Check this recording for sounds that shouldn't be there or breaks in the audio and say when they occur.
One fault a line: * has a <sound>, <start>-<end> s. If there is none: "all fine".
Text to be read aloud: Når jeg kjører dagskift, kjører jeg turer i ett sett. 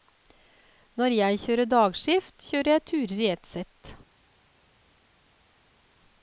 all fine